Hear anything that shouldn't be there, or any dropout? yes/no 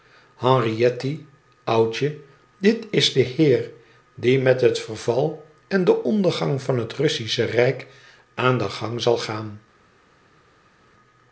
no